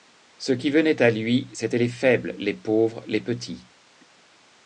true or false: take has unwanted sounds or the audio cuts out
false